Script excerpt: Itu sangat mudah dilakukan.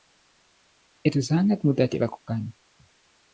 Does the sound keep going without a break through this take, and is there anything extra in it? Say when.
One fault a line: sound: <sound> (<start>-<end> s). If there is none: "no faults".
no faults